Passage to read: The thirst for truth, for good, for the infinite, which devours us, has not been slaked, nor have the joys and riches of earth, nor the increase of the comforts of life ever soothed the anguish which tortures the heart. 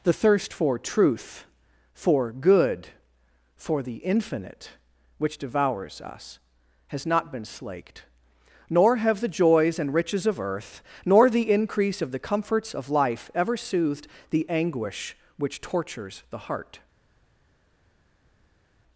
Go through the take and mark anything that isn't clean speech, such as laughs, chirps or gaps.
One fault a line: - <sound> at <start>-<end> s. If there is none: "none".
none